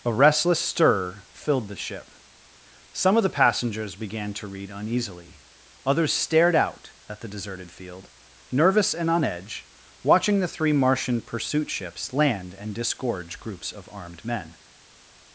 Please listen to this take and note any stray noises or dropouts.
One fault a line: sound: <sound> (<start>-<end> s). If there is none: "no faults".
no faults